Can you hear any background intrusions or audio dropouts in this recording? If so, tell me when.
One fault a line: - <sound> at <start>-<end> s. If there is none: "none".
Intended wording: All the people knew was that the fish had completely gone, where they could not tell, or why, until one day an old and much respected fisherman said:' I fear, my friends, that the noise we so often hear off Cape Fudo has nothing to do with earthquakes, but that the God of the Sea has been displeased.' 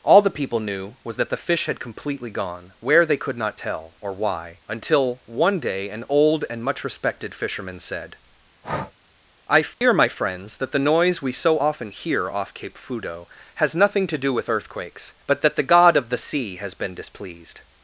- breath at 8.6-8.9 s
- dropout at 9.7-9.8 s